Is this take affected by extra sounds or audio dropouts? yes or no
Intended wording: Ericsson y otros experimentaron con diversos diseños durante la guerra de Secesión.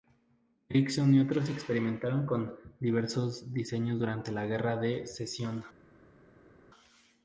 no